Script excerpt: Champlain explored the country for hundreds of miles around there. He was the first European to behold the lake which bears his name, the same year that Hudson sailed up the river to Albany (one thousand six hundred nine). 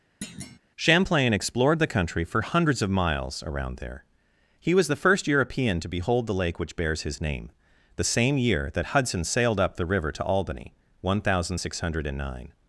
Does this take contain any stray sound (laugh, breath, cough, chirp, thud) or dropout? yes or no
yes